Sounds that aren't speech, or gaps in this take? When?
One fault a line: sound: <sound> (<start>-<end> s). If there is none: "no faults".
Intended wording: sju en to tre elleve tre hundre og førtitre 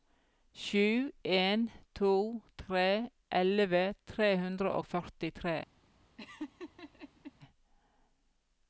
sound: laugh (6.2-7.3 s)